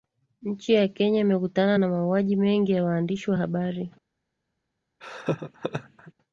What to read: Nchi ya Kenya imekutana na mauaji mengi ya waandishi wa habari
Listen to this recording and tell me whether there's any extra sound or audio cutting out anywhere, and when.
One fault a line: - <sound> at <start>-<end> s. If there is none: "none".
- laugh at 5.0-6.1 s